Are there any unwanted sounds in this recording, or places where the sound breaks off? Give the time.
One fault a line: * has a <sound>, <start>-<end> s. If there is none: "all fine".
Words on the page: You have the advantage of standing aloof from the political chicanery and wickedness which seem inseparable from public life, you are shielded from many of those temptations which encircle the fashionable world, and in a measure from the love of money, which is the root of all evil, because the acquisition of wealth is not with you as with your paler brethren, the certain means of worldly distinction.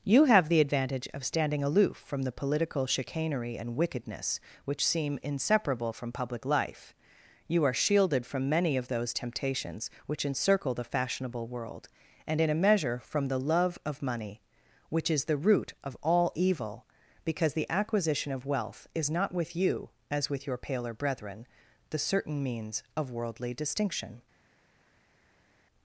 all fine